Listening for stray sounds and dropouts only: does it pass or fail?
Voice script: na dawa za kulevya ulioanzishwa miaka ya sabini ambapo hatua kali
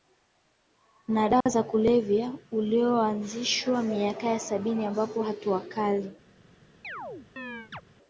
fail